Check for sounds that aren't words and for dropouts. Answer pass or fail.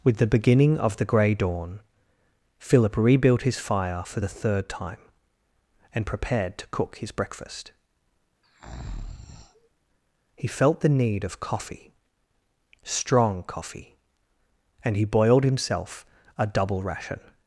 fail